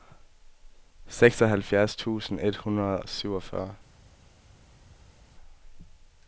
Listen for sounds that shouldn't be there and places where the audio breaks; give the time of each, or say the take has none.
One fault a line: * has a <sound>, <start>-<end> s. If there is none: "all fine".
all fine